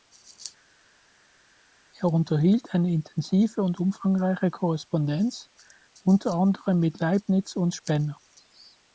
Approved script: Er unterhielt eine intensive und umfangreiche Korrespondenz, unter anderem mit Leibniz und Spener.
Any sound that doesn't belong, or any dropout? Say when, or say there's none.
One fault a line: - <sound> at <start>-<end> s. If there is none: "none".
none